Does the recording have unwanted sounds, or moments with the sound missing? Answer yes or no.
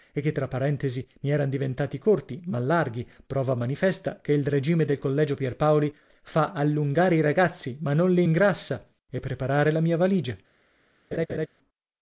yes